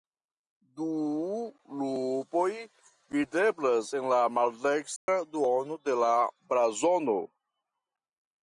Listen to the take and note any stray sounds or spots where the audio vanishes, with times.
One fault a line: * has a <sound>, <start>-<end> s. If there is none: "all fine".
* has a dropout, 5.0-5.1 s